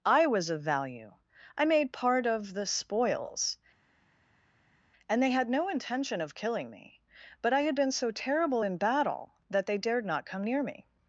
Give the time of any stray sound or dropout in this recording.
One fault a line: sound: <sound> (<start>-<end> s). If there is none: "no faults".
no faults